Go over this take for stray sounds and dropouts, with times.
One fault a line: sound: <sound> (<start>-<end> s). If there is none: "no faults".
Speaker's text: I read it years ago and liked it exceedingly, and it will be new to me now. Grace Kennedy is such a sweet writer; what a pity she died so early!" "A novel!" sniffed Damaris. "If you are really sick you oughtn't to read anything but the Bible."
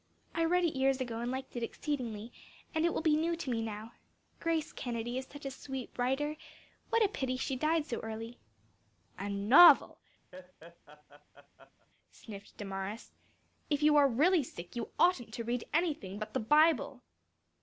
sound: laugh (10.3-11.9 s)